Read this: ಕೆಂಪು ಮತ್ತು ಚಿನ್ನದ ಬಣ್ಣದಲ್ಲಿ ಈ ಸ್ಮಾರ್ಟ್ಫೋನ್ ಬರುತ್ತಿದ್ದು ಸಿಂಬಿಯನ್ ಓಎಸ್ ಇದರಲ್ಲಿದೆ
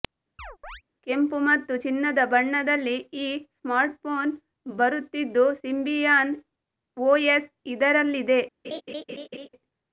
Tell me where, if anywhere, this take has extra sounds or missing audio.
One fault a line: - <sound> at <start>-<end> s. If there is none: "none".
- chirp at 0.4-0.8 s
- laugh at 8.6-9.5 s